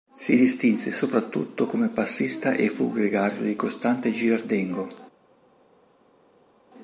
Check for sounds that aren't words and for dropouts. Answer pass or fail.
pass